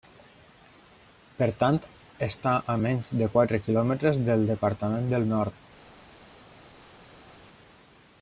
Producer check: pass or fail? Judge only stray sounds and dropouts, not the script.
pass